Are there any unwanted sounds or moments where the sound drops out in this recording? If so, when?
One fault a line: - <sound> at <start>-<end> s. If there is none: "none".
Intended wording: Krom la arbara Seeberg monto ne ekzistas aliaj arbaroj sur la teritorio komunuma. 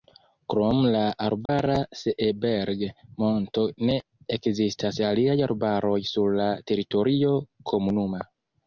- dropout at 1.5-1.5 s